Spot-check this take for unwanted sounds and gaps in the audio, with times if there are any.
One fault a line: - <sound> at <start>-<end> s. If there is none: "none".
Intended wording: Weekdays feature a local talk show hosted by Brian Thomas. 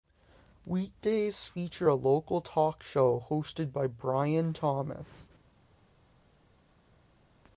none